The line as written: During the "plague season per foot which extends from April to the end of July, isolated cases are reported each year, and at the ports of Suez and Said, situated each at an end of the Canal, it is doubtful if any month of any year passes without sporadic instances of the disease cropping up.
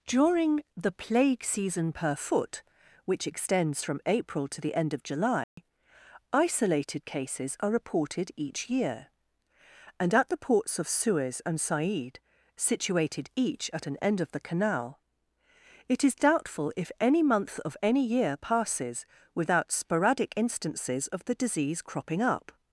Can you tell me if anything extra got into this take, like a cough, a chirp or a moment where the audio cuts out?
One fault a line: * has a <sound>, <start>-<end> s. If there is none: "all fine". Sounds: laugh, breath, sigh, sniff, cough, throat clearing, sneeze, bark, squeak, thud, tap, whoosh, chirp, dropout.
* has a dropout, 5.4-5.6 s